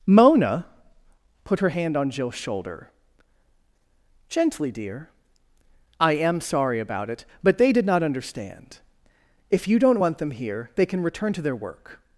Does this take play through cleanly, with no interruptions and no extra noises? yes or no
yes